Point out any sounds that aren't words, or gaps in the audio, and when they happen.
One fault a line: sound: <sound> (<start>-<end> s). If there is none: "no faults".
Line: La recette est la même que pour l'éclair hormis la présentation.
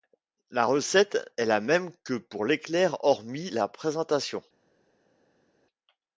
no faults